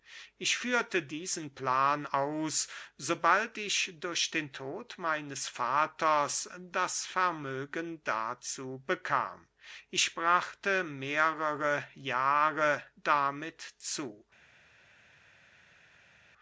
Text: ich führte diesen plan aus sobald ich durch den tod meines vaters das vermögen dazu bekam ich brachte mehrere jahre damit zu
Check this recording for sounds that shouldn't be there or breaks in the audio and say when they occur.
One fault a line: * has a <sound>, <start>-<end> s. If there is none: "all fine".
all fine